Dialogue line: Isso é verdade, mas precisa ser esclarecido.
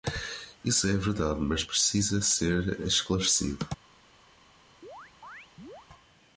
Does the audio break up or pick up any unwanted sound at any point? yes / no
yes